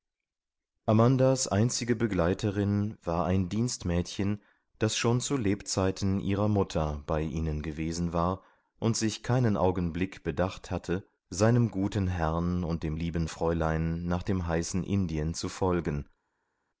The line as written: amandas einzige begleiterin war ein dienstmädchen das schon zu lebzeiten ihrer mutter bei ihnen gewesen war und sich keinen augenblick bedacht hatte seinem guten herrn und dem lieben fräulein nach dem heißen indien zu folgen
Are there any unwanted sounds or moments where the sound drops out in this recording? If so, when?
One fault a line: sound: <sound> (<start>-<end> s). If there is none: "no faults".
no faults